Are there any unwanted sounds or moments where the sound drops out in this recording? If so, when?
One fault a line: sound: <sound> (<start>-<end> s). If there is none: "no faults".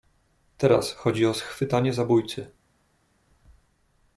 no faults